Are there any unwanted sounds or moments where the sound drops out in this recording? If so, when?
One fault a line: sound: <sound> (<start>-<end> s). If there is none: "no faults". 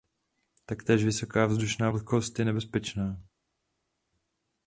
no faults